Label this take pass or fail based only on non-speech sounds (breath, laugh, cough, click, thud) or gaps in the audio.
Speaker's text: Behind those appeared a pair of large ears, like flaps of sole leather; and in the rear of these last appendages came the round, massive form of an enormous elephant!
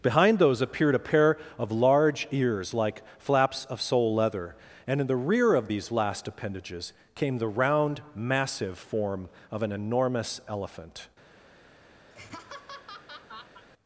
fail